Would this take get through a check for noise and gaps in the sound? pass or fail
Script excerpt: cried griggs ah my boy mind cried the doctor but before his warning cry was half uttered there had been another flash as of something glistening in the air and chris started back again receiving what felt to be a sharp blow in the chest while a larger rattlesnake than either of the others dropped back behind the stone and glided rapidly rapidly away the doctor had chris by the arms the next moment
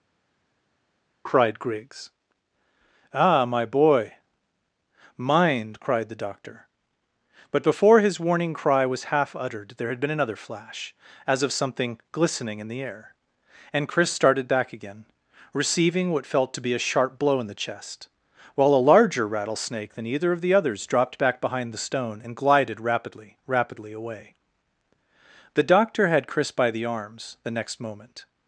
pass